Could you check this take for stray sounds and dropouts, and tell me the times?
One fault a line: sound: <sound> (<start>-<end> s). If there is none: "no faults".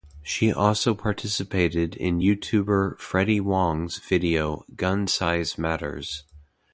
no faults